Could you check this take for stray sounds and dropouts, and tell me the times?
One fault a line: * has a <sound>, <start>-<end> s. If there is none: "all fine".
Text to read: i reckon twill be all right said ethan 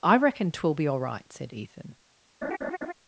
* has a laugh, 2.4-2.9 s